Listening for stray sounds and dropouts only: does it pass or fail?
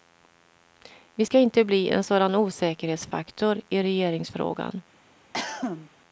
fail